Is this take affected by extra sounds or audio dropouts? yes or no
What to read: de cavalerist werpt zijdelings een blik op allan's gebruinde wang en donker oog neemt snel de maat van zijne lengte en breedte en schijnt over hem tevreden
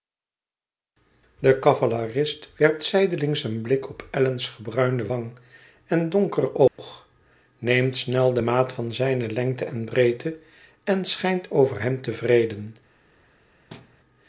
yes